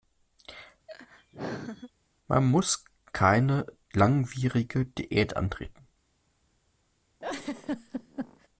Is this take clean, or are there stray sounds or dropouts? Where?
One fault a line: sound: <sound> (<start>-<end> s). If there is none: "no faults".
sound: laugh (0.9-1.9 s)
sound: laugh (7.2-8.5 s)